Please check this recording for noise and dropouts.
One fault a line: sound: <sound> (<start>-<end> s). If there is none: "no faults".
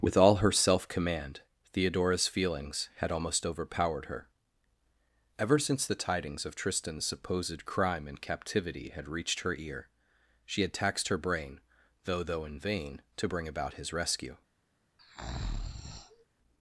sound: breath (15.0-16.2 s)